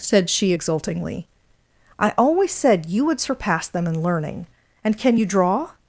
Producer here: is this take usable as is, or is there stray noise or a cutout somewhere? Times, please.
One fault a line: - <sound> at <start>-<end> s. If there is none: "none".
none